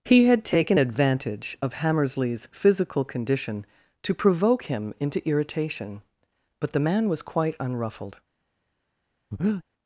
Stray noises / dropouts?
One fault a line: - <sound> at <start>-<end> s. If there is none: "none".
- breath at 9.3-9.6 s